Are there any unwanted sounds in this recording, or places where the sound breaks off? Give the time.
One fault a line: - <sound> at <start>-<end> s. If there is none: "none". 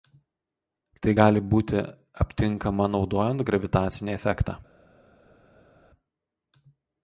none